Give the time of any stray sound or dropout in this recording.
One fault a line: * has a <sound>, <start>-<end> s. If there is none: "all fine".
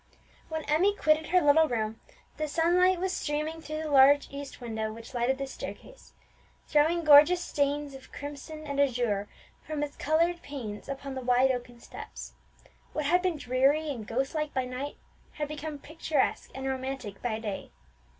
all fine